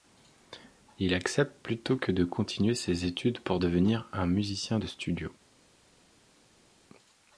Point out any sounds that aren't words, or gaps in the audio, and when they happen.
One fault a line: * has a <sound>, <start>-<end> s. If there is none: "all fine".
all fine